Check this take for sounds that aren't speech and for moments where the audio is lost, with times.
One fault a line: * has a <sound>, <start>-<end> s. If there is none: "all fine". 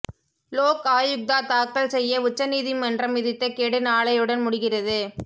all fine